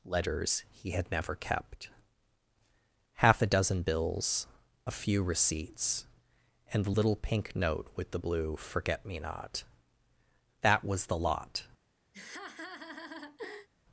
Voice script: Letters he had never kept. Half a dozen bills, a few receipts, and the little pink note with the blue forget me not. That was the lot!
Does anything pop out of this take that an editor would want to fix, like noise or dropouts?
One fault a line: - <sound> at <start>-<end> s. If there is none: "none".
- laugh at 12.1-13.7 s